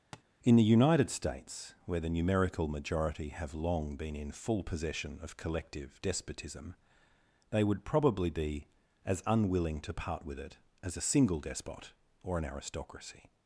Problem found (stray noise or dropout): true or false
true